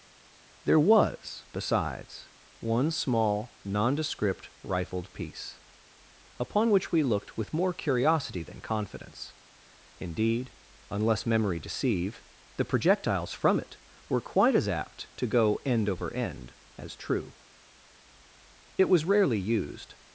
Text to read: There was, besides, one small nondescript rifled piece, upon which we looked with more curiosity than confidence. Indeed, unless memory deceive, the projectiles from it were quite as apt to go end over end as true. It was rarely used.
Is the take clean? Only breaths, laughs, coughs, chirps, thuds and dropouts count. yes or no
yes